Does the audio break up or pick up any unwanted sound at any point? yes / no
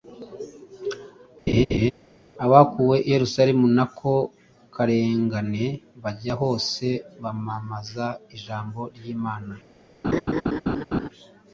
yes